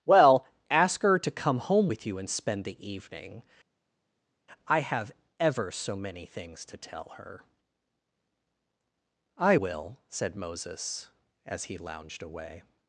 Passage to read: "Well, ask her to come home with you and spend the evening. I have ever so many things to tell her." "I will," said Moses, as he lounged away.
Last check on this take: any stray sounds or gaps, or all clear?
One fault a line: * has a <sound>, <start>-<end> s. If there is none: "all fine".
all fine